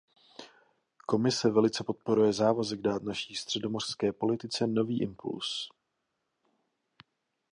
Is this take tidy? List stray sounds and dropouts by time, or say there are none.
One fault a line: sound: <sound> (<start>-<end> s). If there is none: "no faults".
no faults